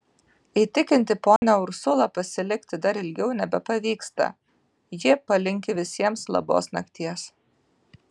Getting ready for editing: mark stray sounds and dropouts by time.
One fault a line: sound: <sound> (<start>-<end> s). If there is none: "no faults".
sound: dropout (1.4-1.4 s)